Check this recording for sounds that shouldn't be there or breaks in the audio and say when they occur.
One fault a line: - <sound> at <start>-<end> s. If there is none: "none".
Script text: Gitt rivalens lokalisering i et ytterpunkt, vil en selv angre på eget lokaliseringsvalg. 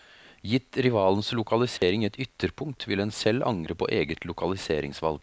- dropout at 1.8-1.8 s